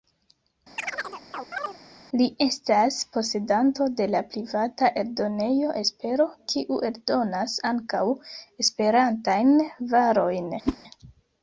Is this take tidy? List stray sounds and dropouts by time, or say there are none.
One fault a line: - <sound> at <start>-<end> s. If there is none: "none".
- chirp at 0.8-1.8 s
- whoosh at 10.7-10.8 s